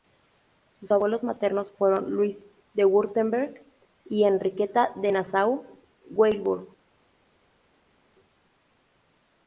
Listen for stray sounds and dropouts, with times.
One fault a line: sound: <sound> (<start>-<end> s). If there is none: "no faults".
no faults